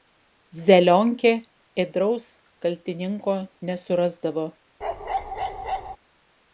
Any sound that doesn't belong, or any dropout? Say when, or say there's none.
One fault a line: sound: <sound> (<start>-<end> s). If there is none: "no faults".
sound: bark (4.8-6.0 s)